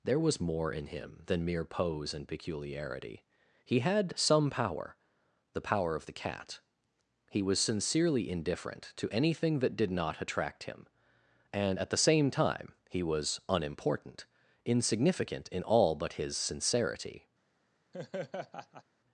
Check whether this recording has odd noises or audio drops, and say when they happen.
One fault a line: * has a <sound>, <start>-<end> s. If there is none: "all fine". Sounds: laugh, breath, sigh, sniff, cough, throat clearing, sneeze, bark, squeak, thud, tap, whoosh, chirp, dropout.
* has a laugh, 17.9-18.8 s